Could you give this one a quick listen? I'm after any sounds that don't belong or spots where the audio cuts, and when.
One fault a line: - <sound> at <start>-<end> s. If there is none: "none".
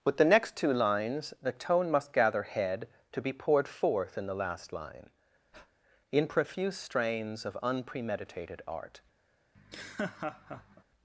- breath at 5.5-5.7 s
- laugh at 9.5-10.8 s